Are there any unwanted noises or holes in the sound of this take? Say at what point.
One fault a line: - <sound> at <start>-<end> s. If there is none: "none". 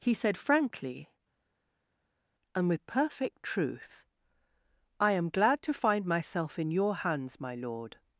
none